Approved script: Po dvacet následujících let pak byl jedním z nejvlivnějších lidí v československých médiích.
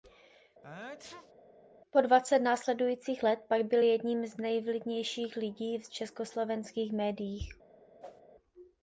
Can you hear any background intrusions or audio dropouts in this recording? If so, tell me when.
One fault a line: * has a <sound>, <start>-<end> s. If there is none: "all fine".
* has a sneeze, 0.6-1.3 s
* has a whoosh, 8.0-8.2 s